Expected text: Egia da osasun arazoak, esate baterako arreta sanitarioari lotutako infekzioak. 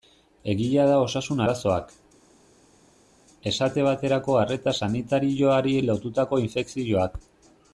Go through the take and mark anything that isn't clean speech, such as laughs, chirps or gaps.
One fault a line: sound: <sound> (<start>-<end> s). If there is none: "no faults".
no faults